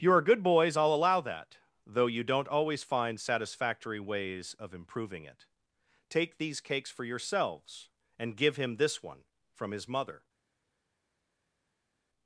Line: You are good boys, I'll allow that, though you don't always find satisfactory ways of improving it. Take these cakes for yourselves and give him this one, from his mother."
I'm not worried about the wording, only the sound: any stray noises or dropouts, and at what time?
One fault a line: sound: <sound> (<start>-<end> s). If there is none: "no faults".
no faults